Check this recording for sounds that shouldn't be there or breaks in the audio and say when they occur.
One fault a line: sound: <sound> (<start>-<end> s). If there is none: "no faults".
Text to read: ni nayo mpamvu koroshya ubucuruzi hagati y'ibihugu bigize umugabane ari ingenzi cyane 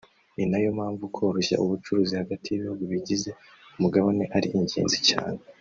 no faults